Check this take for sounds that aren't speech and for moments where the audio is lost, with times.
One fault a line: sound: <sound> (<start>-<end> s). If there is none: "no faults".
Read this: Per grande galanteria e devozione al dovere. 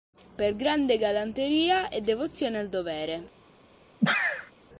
sound: sneeze (4.0-4.5 s)